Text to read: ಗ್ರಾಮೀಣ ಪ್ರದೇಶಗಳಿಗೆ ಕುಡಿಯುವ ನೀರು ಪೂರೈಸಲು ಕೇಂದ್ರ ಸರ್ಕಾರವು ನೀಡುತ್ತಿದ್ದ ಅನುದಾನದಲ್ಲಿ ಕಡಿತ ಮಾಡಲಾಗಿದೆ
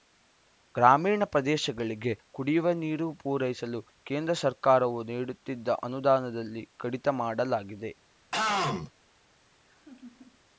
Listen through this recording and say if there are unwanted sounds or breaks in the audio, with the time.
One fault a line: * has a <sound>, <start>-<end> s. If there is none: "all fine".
* has a throat clearing, 8.3-8.9 s
* has a laugh, 9.7-10.4 s